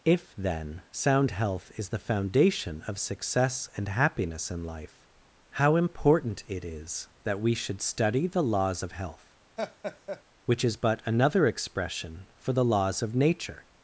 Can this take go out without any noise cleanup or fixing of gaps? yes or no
no